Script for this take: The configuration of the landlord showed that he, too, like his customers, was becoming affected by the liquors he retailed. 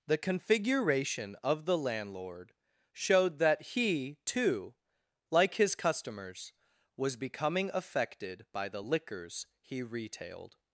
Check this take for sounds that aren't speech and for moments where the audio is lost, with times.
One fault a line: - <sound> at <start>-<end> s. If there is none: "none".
none